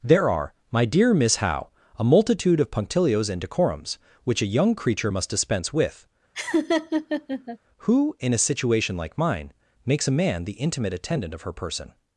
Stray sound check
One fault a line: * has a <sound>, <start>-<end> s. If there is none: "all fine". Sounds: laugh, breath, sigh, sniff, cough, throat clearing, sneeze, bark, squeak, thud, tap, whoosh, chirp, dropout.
* has a laugh, 6.4-7.6 s